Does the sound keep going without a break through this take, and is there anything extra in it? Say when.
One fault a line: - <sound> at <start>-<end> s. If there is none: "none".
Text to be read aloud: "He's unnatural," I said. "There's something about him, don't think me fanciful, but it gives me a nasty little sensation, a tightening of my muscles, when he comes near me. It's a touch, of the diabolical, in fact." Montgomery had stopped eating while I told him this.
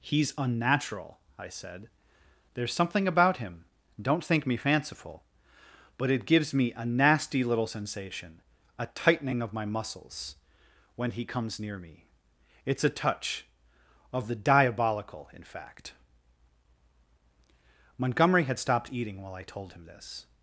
none